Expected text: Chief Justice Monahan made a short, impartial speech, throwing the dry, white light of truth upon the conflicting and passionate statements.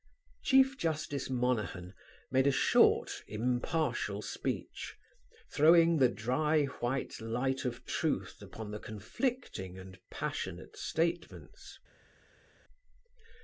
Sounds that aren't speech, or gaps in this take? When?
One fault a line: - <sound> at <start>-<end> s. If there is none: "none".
none